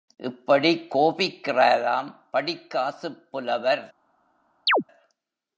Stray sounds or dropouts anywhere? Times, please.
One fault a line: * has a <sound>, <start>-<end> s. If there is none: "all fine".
* has a chirp, 4.7-4.8 s